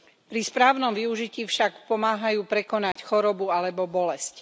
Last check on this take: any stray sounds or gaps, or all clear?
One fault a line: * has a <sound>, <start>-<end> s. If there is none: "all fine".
* has a dropout, 2.9-3.0 s